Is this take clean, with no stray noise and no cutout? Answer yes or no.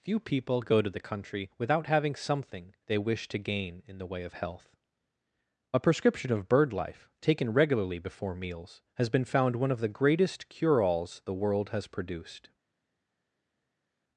yes